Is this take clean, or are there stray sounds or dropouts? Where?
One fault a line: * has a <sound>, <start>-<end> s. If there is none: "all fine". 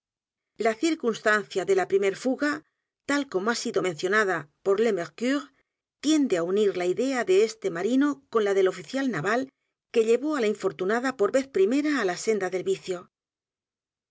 all fine